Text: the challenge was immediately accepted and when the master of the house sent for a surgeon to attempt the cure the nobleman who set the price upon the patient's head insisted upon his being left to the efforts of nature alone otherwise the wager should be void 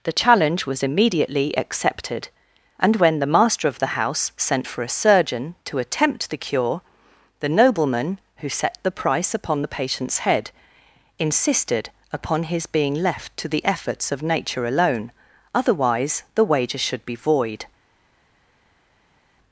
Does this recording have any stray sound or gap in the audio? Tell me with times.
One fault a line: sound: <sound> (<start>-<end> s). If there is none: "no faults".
no faults